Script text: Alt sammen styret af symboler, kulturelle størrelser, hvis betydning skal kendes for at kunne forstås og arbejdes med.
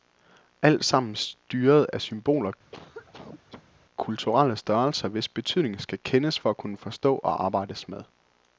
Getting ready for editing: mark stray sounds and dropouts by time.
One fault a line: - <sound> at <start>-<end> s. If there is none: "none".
- cough at 2.7-3.7 s